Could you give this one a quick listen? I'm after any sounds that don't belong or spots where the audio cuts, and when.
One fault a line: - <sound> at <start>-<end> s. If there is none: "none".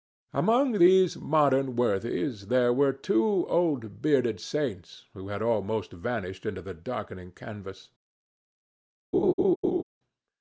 - laugh at 9.1-9.8 s